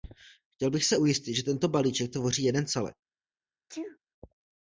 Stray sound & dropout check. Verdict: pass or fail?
fail